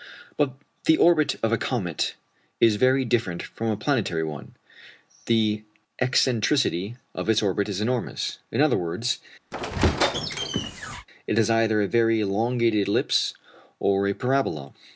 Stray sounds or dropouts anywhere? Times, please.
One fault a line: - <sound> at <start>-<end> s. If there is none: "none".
- squeak at 9.5-11.1 s